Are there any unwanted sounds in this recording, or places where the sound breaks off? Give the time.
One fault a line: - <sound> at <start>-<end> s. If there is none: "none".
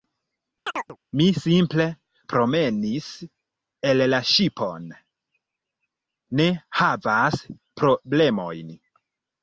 - chirp at 0.7-1.0 s